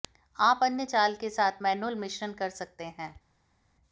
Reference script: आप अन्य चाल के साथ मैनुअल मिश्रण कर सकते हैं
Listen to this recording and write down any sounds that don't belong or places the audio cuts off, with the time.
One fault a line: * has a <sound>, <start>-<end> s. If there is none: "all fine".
all fine